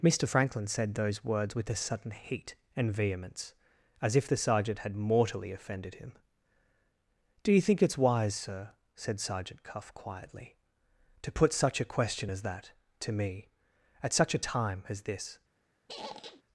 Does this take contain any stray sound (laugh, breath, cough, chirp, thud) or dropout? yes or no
yes